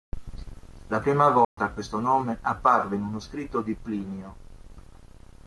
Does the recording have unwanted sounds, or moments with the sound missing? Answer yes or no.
yes